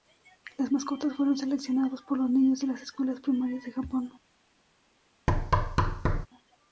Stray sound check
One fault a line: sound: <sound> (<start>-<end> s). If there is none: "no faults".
sound: thud (5.3-6.3 s)